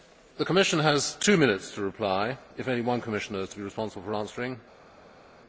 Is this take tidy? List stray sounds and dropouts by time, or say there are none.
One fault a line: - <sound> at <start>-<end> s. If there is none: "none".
none